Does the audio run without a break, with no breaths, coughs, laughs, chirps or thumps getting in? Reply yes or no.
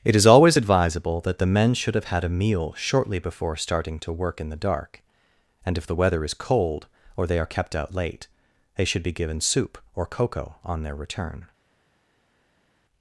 yes